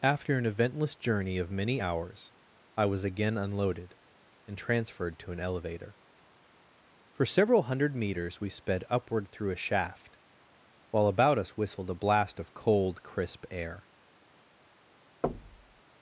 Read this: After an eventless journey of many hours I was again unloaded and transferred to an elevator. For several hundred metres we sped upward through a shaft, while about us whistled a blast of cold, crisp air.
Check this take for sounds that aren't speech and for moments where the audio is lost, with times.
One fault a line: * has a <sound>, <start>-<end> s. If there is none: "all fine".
* has a thud, 15.2-15.8 s